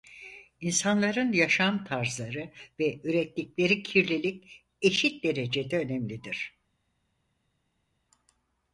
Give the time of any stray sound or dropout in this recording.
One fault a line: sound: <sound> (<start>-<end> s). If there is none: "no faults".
no faults